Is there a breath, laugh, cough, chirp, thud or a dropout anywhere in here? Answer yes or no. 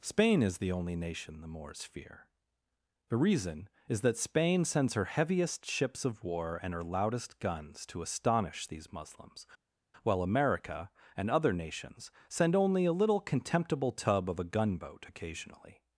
no